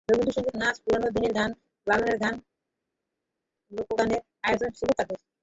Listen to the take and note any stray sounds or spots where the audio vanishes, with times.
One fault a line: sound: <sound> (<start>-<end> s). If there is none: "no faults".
no faults